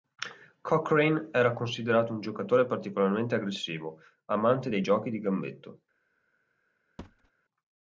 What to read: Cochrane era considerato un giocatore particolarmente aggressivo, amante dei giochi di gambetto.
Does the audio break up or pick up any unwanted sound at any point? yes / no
yes